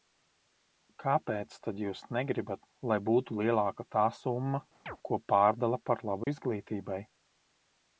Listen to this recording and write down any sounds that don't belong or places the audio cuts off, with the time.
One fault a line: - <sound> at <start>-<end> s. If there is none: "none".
- chirp at 4.9-5.0 s
- dropout at 6.2-6.3 s